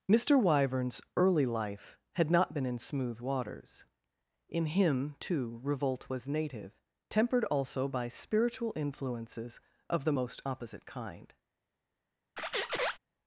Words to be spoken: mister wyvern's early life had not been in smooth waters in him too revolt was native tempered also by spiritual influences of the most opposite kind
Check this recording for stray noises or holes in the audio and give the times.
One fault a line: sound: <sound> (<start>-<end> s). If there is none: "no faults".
sound: squeak (12.4-13.0 s)